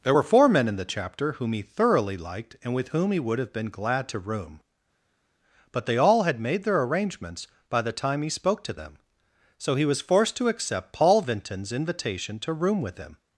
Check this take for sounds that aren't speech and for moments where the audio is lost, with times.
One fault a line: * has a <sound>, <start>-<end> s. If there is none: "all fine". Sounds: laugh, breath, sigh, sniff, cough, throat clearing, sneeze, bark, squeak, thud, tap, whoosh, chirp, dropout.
all fine